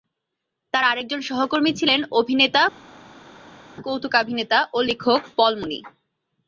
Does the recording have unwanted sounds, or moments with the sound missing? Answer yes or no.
no